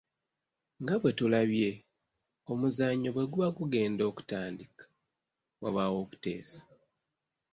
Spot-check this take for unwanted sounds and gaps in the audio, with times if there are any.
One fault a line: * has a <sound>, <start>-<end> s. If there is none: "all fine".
all fine